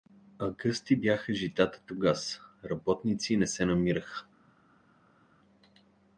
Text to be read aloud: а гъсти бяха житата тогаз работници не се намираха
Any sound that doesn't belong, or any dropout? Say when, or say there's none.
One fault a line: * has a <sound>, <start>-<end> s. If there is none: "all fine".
all fine